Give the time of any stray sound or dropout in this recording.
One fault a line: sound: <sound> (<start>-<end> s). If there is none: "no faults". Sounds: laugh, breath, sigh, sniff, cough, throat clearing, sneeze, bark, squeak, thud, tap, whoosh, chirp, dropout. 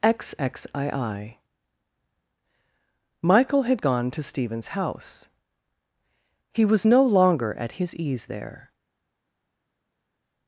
no faults